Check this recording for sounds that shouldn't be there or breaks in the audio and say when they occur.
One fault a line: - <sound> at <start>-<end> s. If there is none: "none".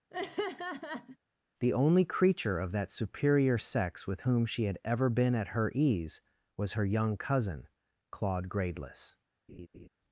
- laugh at 0.1-1.2 s
- laugh at 9.5-9.9 s